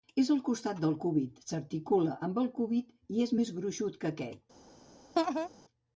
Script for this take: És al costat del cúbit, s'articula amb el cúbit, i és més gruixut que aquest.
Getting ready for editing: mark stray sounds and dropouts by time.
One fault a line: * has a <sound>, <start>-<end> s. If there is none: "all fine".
* has a laugh, 5.2-5.5 s